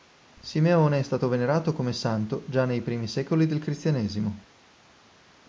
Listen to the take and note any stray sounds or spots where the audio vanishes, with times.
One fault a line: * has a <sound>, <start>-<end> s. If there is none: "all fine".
all fine